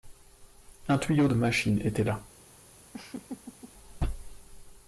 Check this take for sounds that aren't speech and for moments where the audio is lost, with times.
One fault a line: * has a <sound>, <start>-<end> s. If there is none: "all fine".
* has a laugh, 2.9-3.7 s